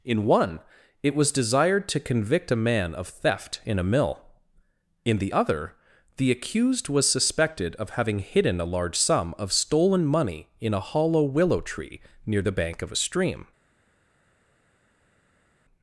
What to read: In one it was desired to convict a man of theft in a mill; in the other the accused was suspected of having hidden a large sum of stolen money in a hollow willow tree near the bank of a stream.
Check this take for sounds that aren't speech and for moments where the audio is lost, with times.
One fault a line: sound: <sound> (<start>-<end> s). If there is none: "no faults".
no faults